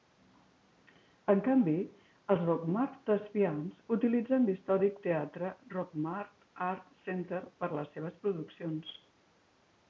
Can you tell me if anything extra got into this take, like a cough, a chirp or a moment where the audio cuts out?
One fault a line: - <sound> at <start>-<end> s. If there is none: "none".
none